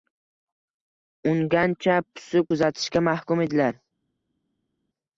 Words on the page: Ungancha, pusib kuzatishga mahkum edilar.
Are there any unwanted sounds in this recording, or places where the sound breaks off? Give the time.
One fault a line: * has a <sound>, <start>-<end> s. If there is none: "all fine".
all fine